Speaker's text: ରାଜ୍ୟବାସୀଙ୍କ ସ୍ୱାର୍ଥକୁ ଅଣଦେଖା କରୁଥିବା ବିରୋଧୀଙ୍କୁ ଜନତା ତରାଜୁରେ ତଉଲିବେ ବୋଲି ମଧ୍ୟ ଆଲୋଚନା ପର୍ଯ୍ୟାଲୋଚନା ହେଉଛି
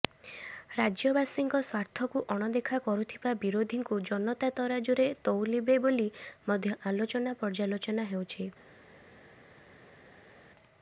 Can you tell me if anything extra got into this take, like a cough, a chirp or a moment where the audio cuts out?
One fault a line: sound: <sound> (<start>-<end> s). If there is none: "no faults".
no faults